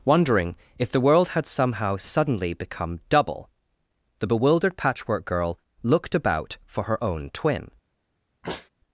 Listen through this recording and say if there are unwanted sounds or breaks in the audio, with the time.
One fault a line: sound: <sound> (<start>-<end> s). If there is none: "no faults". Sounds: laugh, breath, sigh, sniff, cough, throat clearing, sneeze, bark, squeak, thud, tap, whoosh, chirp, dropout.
sound: sneeze (8.4-8.7 s)